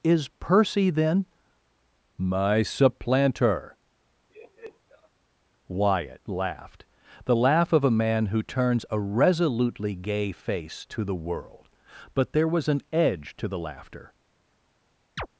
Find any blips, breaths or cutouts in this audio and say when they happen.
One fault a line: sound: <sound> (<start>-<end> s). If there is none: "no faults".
sound: laugh (4.3-5.1 s)
sound: chirp (15.2-15.3 s)